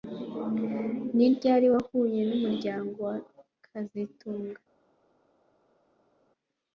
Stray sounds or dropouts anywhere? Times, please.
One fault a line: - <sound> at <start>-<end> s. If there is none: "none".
none